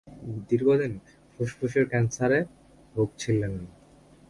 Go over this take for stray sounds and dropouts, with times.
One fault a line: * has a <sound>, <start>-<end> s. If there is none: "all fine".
all fine